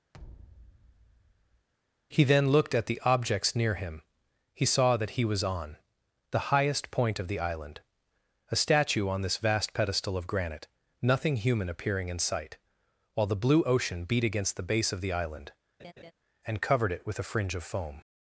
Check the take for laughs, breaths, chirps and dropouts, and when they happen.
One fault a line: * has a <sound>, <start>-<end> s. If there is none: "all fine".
* has a thud, 0.1-1.7 s
* has a laugh, 15.8-16.1 s